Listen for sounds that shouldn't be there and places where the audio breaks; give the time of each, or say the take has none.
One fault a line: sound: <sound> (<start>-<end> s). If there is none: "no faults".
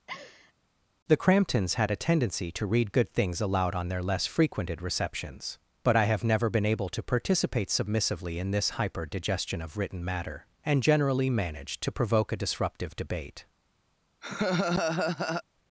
sound: laugh (0.1-0.5 s)
sound: laugh (14.2-15.4 s)